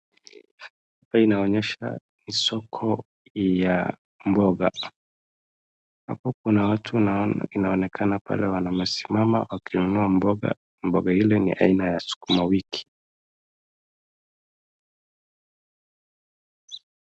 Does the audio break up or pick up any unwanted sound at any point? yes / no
no